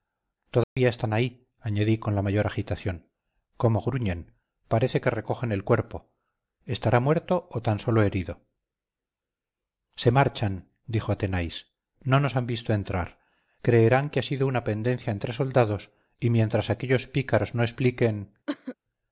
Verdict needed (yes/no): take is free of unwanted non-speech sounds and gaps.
no